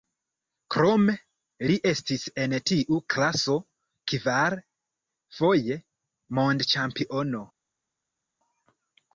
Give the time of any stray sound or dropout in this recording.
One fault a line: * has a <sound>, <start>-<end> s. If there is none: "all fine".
all fine